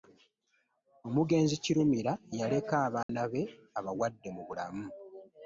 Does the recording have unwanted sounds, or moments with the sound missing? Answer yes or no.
yes